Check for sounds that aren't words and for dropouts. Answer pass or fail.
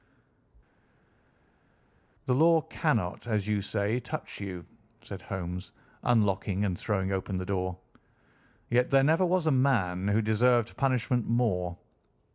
pass